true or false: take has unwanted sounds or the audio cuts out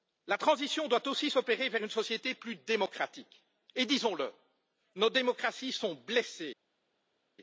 false